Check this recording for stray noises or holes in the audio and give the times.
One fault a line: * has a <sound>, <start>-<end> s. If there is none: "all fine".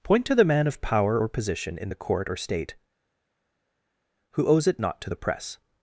all fine